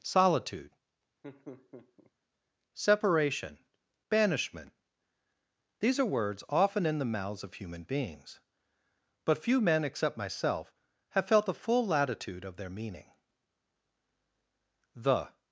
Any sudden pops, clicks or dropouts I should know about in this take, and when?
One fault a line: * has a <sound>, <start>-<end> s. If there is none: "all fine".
* has a laugh, 1.2-2.1 s